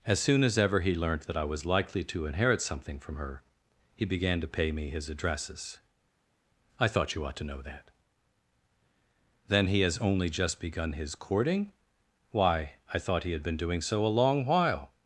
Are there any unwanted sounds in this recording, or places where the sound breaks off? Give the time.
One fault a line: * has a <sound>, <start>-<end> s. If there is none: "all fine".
all fine